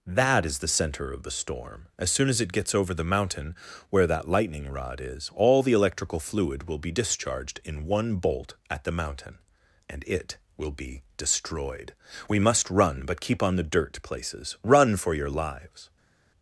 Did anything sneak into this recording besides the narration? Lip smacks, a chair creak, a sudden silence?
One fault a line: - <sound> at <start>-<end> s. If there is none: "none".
none